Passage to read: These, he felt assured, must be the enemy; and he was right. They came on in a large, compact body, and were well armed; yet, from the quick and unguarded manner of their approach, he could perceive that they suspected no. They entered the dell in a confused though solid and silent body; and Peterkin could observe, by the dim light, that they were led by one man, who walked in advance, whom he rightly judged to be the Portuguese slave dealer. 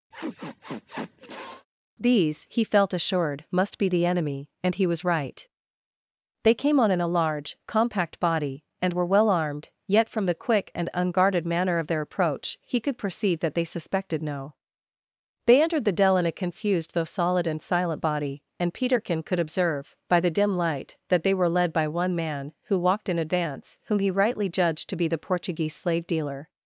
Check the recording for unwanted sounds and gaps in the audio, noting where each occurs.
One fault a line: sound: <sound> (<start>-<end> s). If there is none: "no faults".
sound: sniff (0.1-1.7 s)